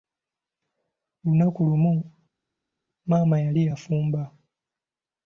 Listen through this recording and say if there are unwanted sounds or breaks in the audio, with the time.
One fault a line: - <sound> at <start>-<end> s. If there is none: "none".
none